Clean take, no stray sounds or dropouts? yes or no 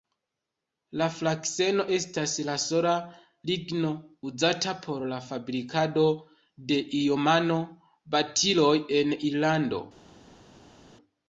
yes